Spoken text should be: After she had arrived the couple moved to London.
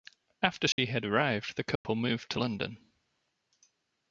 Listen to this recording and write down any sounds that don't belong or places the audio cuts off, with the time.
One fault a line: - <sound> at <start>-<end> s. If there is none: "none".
- dropout at 0.7-0.8 s
- dropout at 1.8-1.8 s